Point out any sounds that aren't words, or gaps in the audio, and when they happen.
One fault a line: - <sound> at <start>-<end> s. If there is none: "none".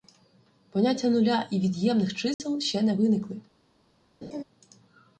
- dropout at 2.3-2.4 s
- laugh at 4.2-4.4 s